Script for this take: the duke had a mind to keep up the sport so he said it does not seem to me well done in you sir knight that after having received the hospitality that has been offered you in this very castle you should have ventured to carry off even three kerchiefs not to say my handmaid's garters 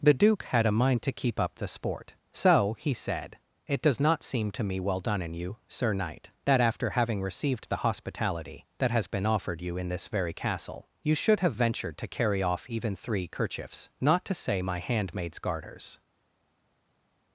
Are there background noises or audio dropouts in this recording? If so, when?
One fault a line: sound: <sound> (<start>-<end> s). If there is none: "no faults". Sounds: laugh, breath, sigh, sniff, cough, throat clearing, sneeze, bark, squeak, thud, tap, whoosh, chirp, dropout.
no faults